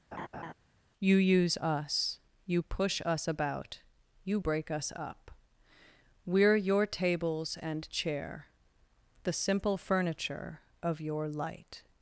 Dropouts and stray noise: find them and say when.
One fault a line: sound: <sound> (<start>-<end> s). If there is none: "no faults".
sound: laugh (0.1-0.5 s)